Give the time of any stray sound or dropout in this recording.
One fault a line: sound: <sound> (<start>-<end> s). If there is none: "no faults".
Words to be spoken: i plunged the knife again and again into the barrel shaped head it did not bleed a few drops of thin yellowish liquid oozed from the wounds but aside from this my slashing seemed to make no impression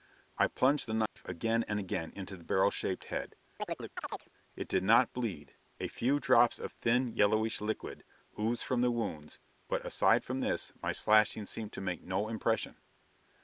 sound: dropout (1.1-1.2 s)
sound: chirp (3.6-4.3 s)